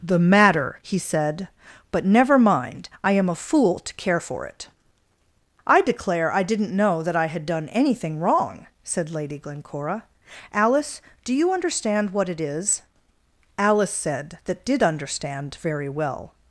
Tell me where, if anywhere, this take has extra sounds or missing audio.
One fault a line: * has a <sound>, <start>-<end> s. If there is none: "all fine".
all fine